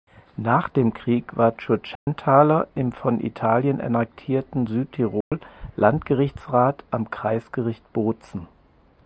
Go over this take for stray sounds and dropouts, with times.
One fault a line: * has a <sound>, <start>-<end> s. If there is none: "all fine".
* has a dropout, 2.0-2.1 s
* has a dropout, 5.2-5.3 s